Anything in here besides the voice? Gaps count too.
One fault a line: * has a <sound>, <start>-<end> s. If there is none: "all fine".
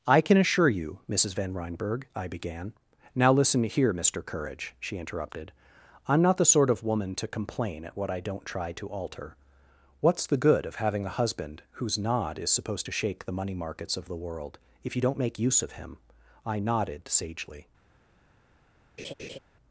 * has a laugh, 19.0-19.4 s